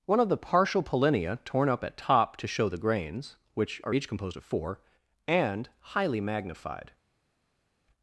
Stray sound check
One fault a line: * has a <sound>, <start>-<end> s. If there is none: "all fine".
all fine